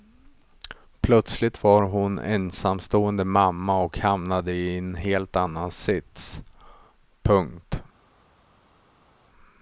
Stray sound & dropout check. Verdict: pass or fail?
pass